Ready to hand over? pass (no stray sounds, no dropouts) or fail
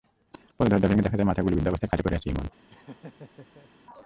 fail